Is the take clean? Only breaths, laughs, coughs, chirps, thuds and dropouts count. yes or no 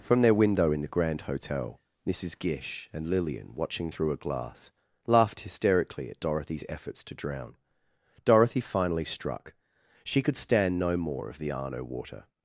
yes